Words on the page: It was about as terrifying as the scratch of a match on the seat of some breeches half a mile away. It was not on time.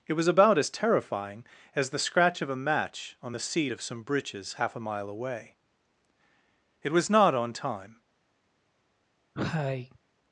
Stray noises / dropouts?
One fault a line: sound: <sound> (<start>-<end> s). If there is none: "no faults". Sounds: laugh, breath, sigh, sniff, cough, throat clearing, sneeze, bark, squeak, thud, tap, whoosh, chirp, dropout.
sound: cough (9.3-10.0 s)